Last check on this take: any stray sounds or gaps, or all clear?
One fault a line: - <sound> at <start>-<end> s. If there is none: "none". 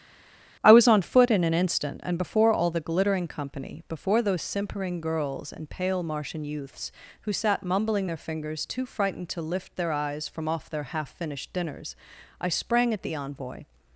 none